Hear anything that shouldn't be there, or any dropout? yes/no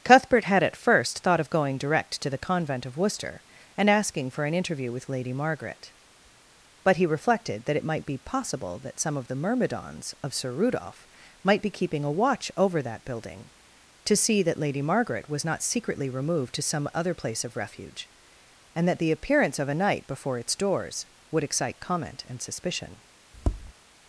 yes